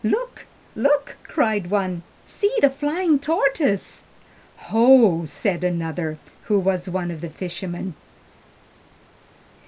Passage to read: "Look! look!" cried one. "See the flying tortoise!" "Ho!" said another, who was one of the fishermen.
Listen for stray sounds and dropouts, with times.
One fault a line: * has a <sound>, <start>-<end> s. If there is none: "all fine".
all fine